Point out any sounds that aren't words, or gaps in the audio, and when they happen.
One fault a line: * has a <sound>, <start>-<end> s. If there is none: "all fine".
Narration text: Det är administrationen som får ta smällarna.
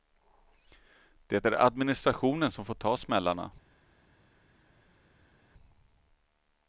all fine